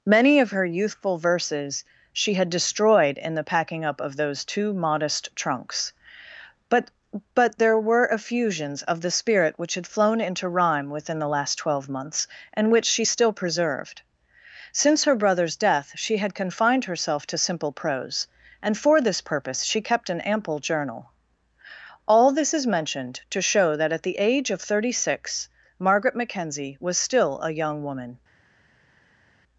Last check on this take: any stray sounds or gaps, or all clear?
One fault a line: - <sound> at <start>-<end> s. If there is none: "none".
none